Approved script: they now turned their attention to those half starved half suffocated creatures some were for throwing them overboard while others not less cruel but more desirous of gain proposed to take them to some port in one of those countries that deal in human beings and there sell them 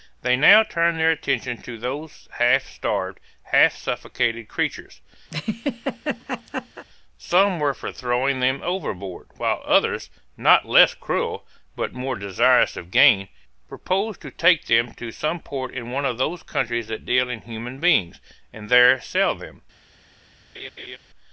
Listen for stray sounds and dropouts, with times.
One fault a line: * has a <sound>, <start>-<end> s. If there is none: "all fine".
* has a laugh, 5.3-6.9 s
* has a laugh, 20.5-21.0 s